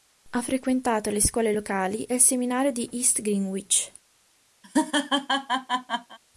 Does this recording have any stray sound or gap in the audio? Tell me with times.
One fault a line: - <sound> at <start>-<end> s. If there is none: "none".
- laugh at 4.6-6.2 s